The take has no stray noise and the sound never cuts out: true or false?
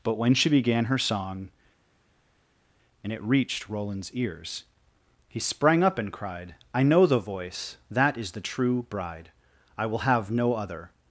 true